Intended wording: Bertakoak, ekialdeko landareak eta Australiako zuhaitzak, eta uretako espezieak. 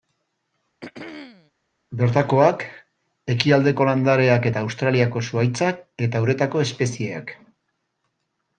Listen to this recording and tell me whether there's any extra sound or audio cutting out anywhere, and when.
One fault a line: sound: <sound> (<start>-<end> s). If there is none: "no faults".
sound: throat clearing (0.8-1.5 s)